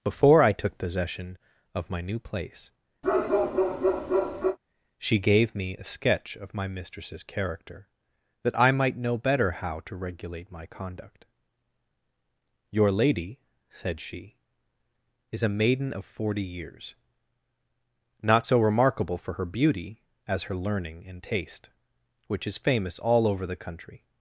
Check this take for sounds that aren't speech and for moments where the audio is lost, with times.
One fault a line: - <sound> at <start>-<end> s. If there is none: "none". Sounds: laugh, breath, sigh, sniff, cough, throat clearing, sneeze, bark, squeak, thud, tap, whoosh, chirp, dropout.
- bark at 3.0-4.6 s